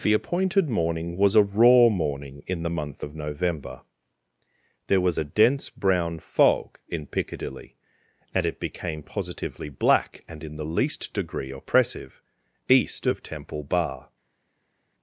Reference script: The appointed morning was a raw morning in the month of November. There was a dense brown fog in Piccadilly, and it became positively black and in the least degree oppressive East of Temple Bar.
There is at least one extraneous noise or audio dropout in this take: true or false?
false